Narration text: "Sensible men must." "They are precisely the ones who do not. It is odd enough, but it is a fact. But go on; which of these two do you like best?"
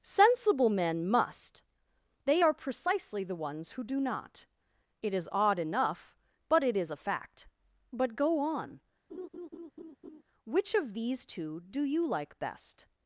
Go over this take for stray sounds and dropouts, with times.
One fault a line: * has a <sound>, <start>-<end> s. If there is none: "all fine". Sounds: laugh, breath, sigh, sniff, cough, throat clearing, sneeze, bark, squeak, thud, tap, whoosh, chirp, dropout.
* has a laugh, 9.1-10.2 s